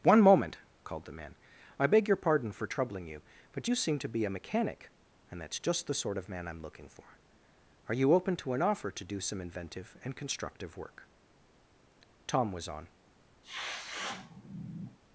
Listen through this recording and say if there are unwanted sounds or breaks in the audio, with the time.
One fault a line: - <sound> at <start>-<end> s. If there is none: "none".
- sneeze at 13.4-15.0 s